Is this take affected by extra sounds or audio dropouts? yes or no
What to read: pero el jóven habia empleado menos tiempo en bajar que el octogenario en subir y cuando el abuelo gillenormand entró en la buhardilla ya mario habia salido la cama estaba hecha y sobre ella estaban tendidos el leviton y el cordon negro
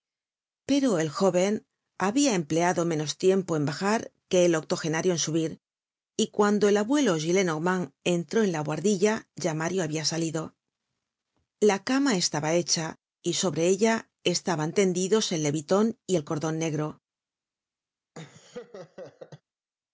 yes